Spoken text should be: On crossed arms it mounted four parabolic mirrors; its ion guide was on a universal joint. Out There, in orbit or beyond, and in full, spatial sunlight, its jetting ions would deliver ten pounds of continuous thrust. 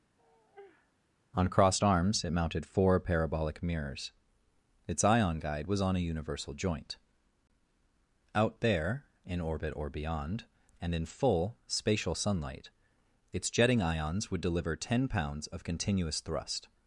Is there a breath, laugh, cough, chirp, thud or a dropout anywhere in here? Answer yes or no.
yes